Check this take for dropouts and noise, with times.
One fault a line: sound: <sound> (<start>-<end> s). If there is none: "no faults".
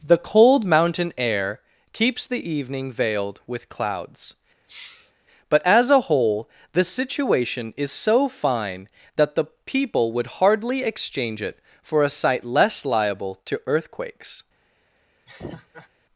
sound: sneeze (4.7-5.1 s)
sound: laugh (15.3-15.9 s)